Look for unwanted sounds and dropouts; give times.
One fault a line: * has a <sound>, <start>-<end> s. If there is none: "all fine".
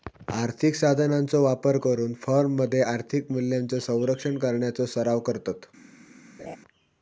* has a laugh, 6.4-6.6 s